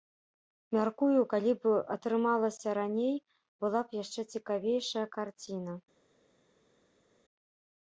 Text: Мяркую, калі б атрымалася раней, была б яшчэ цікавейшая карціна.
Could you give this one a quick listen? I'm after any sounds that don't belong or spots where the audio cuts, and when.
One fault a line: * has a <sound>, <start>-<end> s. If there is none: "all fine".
all fine